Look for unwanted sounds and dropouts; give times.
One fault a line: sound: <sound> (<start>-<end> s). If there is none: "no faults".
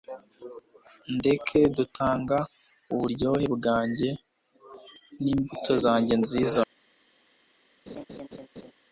sound: laugh (7.9-8.7 s)